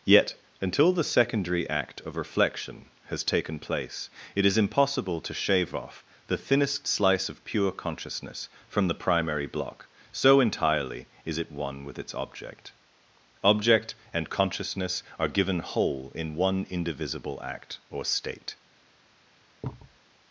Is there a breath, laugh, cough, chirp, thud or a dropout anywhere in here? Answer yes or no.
yes